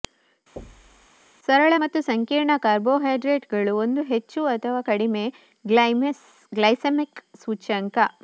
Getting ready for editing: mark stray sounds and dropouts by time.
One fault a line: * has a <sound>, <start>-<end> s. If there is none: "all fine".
* has a thud, 0.6-1.1 s